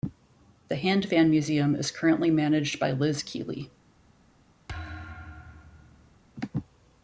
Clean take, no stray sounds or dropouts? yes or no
no